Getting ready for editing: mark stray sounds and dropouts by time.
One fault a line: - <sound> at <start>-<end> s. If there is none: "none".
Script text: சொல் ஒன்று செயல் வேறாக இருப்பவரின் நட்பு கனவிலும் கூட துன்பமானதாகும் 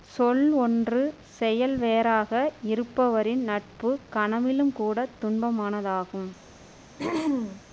- throat clearing at 7.0-7.6 s